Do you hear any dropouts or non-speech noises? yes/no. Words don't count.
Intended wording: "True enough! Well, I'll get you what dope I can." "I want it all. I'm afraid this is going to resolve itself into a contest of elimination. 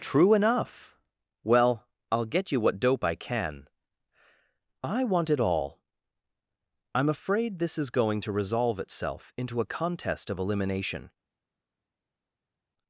no